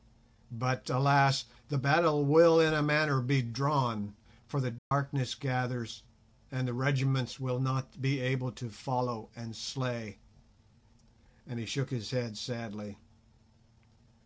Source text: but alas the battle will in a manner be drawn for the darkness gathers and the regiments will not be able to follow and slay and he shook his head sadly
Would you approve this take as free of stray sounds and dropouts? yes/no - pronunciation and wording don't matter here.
no